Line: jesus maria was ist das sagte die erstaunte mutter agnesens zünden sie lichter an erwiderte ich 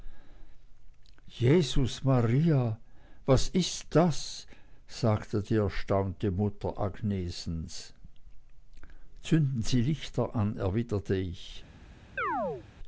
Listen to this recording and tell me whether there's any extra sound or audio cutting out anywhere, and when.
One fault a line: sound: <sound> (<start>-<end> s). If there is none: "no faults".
sound: chirp (12.2-12.7 s)